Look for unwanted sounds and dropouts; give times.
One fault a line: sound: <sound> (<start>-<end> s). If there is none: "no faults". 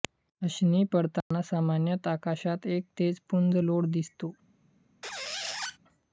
sound: dropout (1.2-1.3 s)
sound: squeak (5.0-5.8 s)